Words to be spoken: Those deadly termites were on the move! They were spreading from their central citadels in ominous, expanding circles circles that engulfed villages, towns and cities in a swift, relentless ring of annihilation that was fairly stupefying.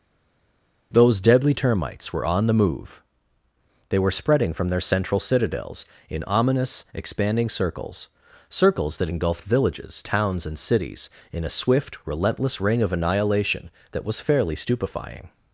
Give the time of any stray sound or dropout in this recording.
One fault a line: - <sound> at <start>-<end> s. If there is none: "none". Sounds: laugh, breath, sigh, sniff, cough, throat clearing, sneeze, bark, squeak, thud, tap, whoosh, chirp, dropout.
none